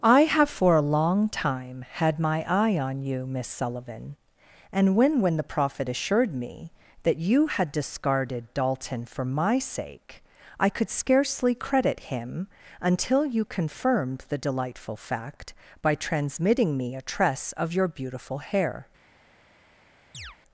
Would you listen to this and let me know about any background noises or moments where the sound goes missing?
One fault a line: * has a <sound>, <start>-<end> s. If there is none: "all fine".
* has a chirp, 20.1-20.4 s